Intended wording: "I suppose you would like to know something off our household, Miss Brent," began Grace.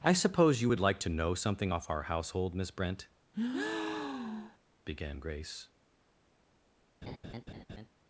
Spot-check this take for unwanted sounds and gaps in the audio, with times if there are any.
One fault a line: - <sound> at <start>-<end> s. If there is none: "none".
- breath at 3.3-4.6 s
- laugh at 7.0-7.9 s